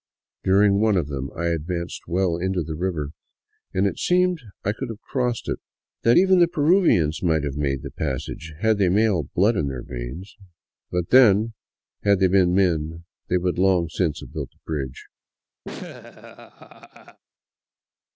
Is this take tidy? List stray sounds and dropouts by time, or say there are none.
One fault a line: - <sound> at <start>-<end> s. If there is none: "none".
- laugh at 15.6-17.2 s